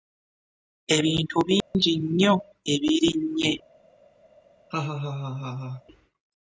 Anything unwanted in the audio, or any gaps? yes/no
yes